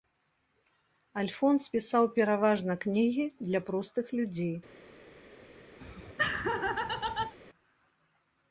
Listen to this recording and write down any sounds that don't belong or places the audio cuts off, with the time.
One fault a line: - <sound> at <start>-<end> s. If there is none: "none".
- laugh at 5.8-7.4 s